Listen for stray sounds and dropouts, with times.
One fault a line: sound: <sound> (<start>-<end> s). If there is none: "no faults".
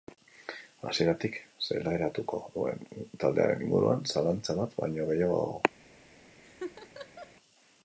sound: laugh (6.4-7.3 s)